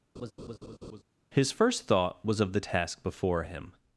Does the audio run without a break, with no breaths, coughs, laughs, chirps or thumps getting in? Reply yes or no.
no